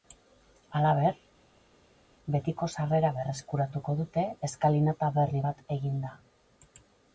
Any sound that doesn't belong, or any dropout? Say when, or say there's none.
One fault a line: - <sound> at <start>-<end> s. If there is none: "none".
none